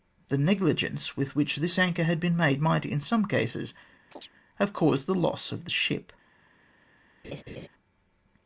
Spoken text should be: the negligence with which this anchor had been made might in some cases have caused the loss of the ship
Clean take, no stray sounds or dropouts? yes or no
no